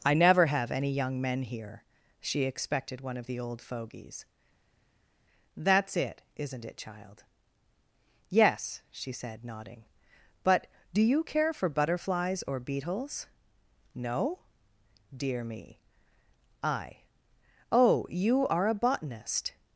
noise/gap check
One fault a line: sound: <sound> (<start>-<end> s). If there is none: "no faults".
no faults